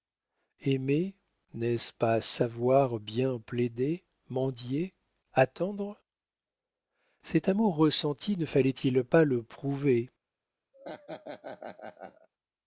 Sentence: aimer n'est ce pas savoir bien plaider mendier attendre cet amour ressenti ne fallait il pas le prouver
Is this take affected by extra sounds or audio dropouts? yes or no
yes